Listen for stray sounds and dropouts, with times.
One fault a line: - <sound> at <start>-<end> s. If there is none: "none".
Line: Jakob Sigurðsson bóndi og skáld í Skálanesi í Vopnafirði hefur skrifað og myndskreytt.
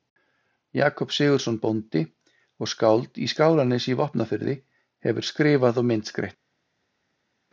none